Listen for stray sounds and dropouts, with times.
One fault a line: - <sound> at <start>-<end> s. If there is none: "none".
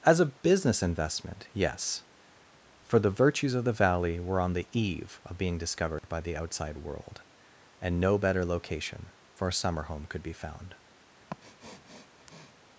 - dropout at 6.0-6.0 s
- sniff at 11.3-12.5 s